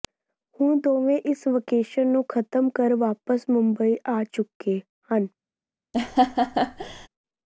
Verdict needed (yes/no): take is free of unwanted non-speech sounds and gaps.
no